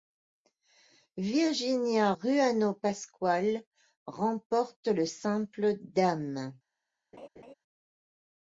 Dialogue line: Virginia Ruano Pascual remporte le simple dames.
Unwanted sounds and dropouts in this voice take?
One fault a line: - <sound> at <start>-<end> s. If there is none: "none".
- laugh at 7.1-7.5 s